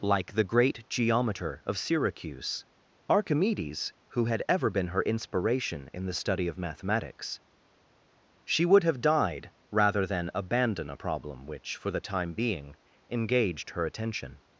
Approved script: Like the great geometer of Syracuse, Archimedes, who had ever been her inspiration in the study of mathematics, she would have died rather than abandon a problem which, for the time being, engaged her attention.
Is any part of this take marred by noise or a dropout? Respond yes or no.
no